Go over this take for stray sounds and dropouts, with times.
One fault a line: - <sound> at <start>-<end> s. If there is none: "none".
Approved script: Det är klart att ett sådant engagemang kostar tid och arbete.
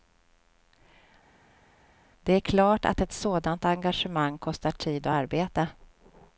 none